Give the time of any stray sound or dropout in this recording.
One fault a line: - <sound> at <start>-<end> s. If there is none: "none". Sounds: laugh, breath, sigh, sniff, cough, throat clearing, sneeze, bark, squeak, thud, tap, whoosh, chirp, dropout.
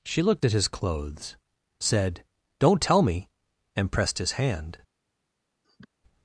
- sniff at 5.6-5.9 s